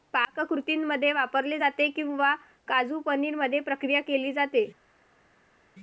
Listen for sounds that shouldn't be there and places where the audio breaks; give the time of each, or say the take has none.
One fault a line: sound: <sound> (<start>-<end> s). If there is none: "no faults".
no faults